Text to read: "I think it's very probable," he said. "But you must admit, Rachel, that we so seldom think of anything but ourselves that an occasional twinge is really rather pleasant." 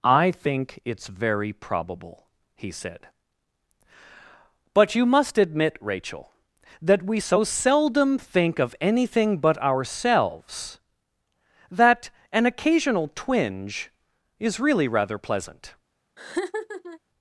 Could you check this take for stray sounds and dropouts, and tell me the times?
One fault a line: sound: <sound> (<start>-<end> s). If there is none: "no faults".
sound: laugh (16.2-17.0 s)